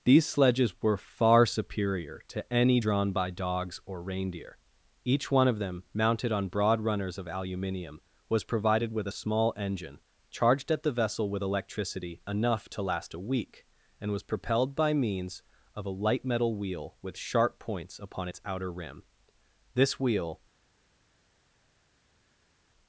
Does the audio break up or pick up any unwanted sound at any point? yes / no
no